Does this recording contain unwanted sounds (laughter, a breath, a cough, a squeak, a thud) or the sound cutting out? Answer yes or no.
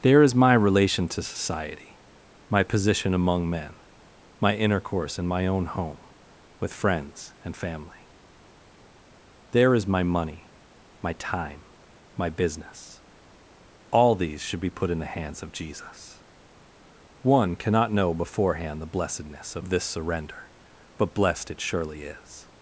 no